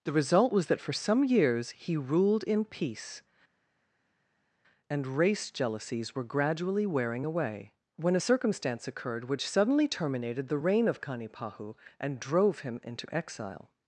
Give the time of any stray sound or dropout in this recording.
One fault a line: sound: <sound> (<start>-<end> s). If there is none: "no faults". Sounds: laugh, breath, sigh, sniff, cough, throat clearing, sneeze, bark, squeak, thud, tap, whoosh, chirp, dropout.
no faults